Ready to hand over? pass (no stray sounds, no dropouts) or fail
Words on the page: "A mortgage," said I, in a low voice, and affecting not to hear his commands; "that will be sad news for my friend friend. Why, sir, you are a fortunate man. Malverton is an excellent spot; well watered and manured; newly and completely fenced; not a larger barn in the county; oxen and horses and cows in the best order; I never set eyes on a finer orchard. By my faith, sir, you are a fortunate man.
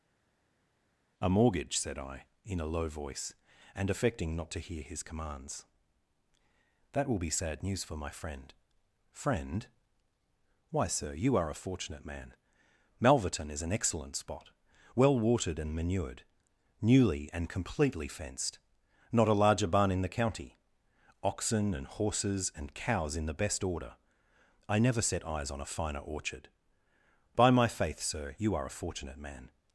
pass